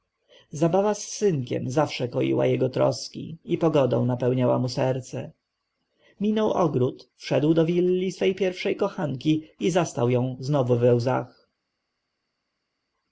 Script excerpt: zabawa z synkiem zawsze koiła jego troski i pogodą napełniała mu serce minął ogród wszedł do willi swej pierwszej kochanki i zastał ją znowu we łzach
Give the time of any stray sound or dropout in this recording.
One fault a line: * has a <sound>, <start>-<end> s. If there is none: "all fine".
all fine